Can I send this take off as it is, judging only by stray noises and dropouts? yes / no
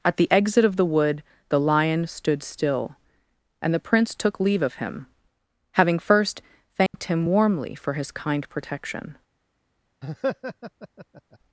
no